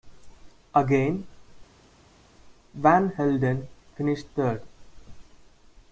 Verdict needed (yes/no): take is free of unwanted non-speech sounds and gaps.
yes